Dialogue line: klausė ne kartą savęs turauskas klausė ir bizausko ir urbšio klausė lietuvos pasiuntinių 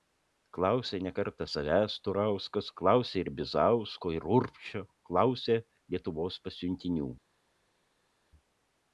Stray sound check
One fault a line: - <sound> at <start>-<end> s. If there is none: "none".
none